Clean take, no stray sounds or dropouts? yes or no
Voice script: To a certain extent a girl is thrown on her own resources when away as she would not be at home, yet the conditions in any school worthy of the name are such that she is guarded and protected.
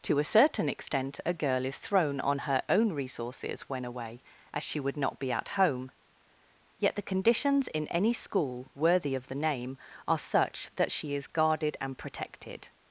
yes